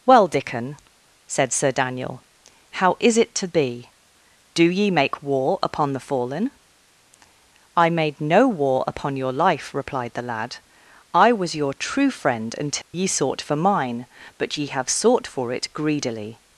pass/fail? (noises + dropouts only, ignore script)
fail